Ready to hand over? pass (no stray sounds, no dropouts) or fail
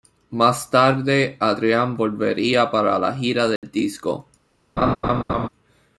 fail